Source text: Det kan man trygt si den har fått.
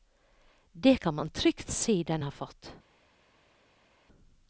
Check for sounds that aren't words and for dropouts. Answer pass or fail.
pass